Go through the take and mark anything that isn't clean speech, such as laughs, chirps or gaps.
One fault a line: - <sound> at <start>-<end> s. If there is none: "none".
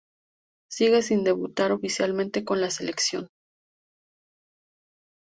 none